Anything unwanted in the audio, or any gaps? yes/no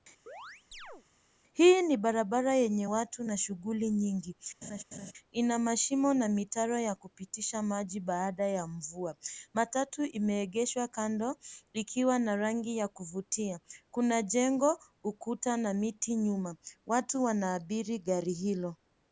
yes